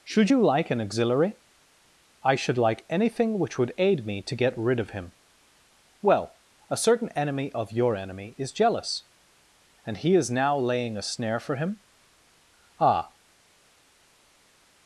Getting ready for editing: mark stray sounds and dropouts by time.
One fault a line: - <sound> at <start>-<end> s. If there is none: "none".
none